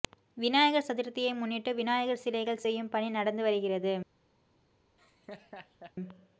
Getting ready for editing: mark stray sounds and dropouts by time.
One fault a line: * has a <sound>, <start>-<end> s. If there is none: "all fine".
* has a laugh, 5.0-5.9 s